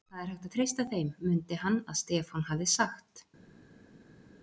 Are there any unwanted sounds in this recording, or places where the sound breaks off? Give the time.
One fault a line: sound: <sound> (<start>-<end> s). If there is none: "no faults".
no faults